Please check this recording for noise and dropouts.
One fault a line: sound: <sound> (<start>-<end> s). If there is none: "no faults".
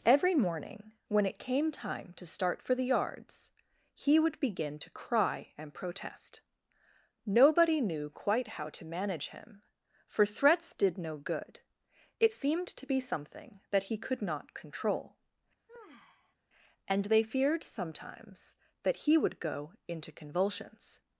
sound: sigh (15.7-16.4 s)